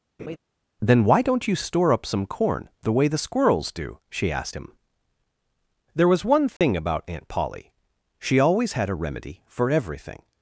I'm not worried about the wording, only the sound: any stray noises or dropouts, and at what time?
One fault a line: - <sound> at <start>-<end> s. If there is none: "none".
- laugh at 0.2-0.4 s
- dropout at 6.6-6.6 s